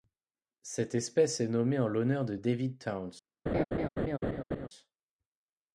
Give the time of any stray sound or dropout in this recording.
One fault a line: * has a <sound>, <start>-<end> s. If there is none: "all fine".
* has a laugh, 3.5-4.7 s